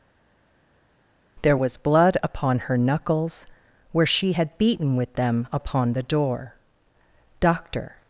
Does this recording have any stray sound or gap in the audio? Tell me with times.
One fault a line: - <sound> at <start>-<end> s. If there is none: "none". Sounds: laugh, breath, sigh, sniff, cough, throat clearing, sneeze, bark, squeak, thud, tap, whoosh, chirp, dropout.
none